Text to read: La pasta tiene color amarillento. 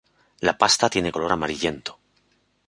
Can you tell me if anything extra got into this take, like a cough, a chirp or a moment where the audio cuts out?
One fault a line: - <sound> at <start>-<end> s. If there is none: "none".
none